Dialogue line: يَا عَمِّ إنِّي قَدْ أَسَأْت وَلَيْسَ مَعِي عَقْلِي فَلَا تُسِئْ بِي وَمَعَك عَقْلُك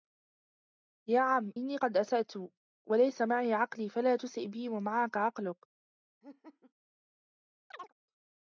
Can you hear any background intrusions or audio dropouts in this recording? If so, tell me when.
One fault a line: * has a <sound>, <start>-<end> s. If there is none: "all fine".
* has a laugh, 6.2-6.7 s
* has a chirp, 7.7-7.9 s